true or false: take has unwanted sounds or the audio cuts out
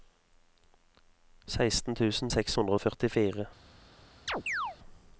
true